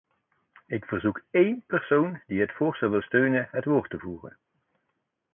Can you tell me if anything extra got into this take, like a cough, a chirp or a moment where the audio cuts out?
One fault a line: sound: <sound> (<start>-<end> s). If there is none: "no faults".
no faults